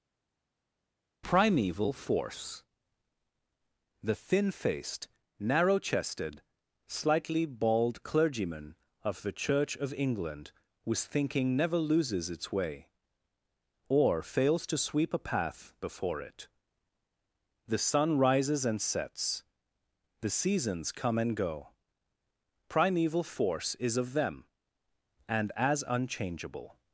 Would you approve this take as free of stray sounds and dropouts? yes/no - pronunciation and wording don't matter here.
yes